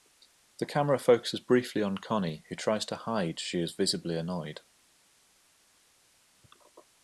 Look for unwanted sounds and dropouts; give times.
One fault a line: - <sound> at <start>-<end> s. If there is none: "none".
none